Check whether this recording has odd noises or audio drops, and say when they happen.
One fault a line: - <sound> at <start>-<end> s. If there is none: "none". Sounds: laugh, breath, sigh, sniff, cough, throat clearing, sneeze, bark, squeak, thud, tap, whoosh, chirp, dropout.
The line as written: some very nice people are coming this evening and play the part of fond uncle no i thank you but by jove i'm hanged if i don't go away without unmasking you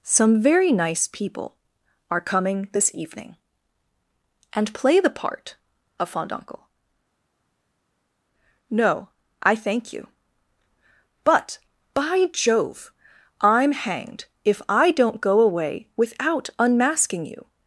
none